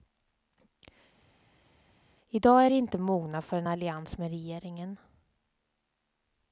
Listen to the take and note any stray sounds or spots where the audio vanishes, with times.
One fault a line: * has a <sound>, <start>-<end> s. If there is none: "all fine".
all fine